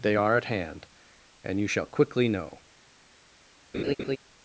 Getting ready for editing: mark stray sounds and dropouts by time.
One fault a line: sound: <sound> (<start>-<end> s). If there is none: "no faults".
sound: laugh (3.7-4.2 s)